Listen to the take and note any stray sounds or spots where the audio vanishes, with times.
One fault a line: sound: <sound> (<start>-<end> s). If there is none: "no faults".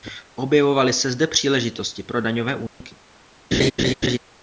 sound: dropout (2.7-2.8 s)
sound: laugh (3.5-4.2 s)